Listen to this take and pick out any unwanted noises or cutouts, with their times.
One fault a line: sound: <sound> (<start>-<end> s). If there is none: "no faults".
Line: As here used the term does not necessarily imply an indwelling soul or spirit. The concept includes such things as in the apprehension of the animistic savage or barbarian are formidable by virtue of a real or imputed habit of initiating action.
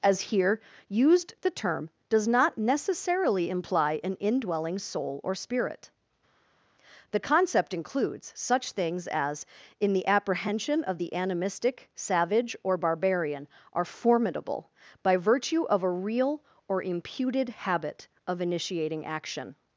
no faults